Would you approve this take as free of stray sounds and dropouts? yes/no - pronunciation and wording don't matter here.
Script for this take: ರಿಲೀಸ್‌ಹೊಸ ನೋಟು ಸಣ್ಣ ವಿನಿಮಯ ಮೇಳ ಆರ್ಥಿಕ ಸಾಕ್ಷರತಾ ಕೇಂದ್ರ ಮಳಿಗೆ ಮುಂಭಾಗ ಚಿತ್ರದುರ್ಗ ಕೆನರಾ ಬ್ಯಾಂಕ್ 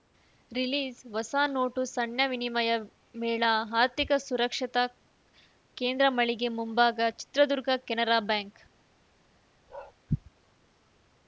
no